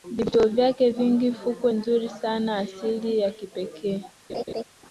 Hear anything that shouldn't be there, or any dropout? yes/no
yes